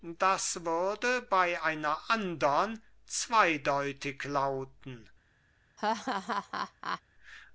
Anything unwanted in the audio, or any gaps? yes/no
yes